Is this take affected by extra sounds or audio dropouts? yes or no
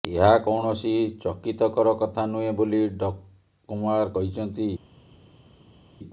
no